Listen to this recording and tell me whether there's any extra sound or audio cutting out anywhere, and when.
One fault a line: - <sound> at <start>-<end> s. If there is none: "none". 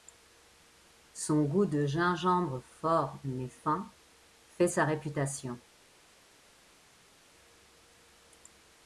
none